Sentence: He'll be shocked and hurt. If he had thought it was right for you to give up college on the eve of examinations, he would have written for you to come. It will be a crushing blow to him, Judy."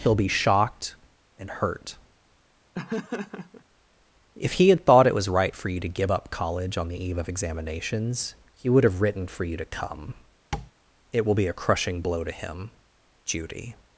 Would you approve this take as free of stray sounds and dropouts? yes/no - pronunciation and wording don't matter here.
no